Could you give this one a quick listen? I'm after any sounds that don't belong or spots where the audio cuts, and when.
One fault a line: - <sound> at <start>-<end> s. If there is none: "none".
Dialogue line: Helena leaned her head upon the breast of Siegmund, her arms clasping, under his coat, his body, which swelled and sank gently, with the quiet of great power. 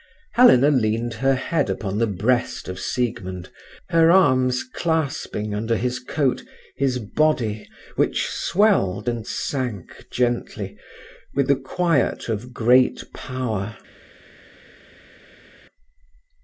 none